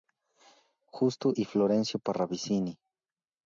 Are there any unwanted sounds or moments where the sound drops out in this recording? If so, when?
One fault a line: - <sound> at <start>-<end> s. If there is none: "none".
none